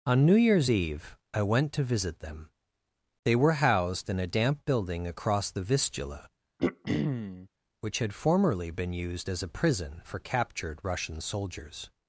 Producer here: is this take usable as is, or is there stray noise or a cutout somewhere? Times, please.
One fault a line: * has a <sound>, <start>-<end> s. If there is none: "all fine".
* has a throat clearing, 6.6-7.5 s